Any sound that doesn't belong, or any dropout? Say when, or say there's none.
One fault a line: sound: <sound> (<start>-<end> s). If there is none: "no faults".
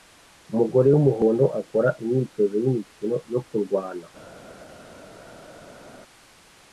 no faults